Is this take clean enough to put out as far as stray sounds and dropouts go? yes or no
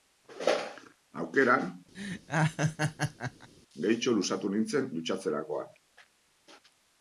no